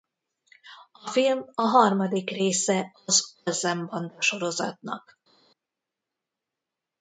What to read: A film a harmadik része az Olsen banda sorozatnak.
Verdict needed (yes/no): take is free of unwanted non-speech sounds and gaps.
yes